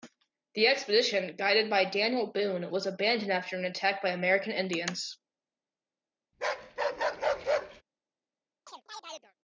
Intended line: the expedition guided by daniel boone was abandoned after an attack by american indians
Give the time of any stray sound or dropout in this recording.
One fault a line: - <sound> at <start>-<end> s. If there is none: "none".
- bark at 6.3-7.8 s
- chirp at 8.7-9.3 s